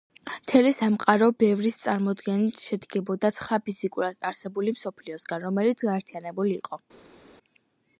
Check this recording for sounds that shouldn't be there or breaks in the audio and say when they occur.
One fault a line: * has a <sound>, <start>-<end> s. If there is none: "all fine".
all fine